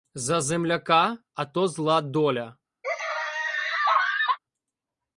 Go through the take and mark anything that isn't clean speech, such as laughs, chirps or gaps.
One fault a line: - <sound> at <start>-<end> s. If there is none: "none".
- laugh at 2.8-4.4 s